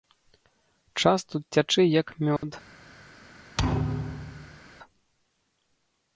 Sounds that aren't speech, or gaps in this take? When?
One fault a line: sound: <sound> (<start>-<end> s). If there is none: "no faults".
sound: dropout (2.4-2.4 s)
sound: thud (3.6-4.6 s)